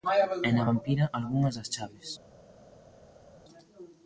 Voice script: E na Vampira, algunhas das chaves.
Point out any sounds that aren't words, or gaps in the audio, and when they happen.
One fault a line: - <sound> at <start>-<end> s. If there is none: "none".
none